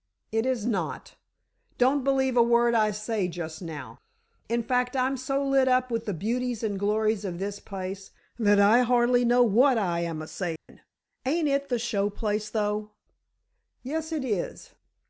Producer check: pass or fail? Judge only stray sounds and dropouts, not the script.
fail